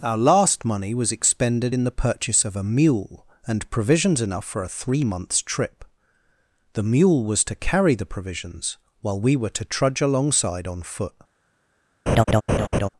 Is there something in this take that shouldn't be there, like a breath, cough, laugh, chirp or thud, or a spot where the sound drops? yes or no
yes